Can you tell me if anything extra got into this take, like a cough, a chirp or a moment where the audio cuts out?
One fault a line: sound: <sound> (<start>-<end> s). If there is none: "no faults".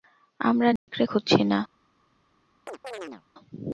sound: dropout (0.8-0.9 s)
sound: chirp (2.7-3.2 s)